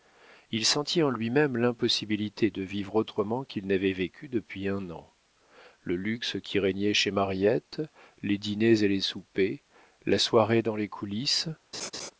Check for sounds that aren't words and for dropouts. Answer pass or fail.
fail